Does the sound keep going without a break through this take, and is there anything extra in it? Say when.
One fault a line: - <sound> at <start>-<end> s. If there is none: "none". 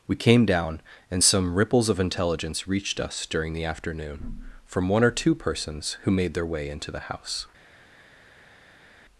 none